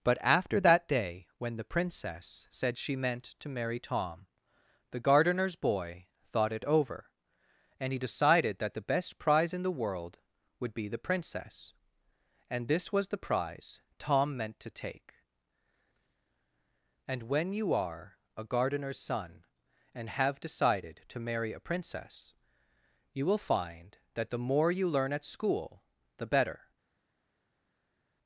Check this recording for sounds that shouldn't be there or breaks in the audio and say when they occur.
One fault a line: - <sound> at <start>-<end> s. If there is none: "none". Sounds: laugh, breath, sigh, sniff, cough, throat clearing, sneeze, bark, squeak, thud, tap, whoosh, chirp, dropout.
none